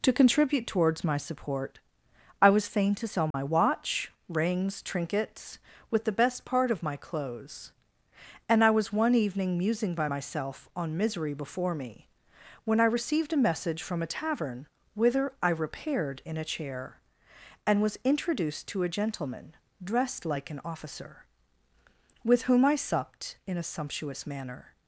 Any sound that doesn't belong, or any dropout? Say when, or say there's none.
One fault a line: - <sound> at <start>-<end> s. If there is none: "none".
- dropout at 3.3-3.3 s